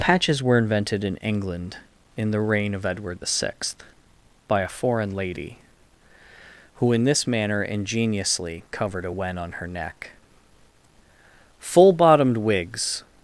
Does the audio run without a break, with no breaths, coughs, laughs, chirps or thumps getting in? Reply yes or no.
yes